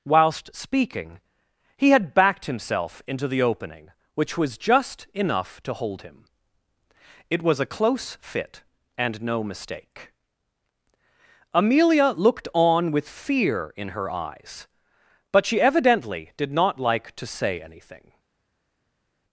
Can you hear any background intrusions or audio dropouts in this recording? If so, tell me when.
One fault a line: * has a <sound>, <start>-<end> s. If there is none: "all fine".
all fine